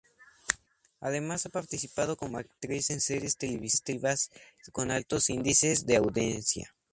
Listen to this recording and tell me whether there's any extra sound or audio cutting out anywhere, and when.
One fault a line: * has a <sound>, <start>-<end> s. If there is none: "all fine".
all fine